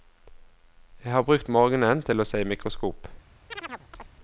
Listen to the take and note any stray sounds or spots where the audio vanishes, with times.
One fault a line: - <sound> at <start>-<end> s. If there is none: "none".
- chirp at 3.5-4.1 s